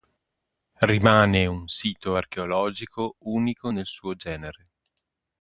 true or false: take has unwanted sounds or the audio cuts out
false